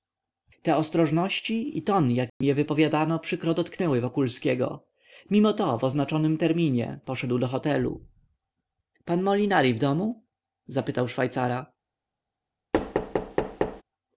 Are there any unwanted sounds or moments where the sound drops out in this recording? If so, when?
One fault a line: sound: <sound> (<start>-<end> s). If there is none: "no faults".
sound: dropout (2.3-2.4 s)
sound: thud (12.7-13.8 s)